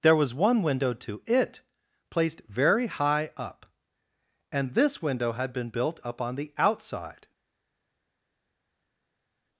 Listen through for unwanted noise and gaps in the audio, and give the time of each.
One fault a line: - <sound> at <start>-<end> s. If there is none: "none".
none